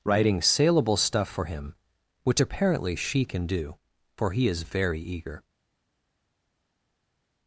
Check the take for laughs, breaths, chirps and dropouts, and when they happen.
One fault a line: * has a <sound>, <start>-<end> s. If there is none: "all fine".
all fine